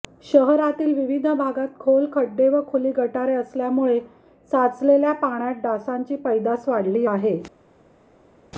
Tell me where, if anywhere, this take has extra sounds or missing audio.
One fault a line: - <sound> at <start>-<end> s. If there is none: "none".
none